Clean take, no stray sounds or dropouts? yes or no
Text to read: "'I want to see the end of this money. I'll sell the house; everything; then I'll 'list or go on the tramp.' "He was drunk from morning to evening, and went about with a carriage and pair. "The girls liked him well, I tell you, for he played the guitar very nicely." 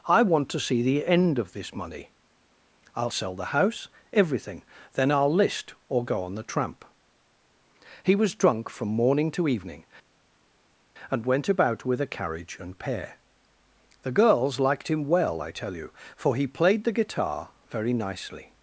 yes